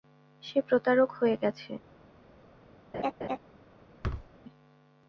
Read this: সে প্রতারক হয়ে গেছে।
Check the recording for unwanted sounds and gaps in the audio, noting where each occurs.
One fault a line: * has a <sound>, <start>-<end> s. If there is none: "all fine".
* has a laugh, 2.9-3.4 s
* has a thud, 4.0-4.3 s